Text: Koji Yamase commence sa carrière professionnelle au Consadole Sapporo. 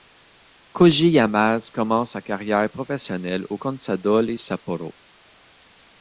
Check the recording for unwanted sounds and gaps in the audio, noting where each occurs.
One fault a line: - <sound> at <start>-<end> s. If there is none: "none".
none